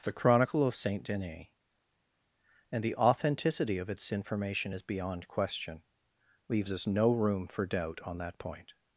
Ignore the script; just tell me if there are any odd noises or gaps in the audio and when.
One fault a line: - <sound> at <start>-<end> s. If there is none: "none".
none